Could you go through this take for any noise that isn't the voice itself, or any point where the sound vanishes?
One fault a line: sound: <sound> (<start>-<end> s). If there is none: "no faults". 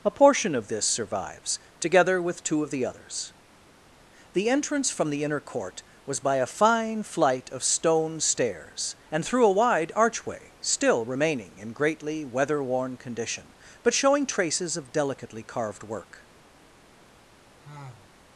sound: sigh (17.6-18.2 s)